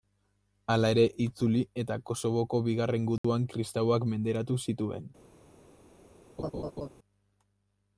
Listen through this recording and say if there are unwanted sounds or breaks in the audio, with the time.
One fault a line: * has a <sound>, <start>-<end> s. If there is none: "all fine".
* has a dropout, 3.2-3.2 s
* has a laugh, 6.4-6.9 s